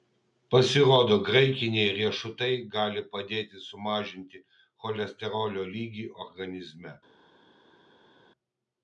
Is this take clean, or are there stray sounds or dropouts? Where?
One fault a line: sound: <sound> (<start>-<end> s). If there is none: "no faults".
no faults